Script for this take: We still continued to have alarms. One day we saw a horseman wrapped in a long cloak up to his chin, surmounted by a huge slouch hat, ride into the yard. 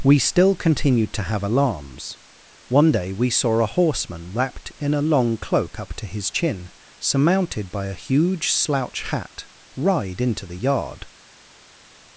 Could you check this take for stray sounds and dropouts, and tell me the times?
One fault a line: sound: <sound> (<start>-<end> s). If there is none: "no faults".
no faults